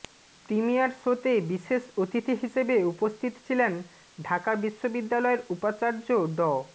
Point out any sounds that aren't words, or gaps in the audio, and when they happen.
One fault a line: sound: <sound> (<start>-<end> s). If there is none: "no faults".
no faults